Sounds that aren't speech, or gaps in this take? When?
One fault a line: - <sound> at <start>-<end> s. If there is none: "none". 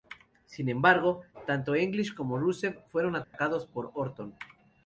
- dropout at 3.2-3.3 s